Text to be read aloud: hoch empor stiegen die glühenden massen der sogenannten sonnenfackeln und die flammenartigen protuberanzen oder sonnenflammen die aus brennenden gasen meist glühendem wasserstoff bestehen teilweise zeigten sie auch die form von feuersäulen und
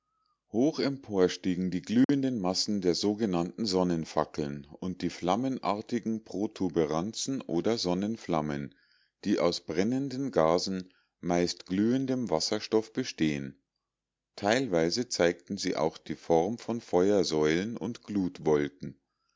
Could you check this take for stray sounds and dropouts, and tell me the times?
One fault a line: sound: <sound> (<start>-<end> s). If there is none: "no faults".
sound: dropout (2.0-2.1 s)